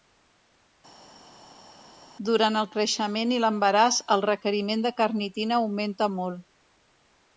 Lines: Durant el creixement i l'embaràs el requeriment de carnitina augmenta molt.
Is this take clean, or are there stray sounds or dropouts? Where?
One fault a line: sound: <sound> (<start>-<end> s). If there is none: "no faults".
no faults